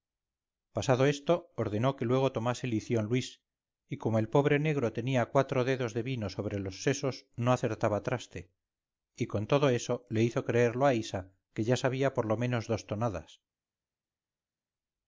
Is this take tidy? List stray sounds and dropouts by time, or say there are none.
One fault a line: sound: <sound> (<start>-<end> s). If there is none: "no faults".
no faults